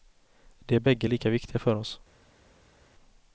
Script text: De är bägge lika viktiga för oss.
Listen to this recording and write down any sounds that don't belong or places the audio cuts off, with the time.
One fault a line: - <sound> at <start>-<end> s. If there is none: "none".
none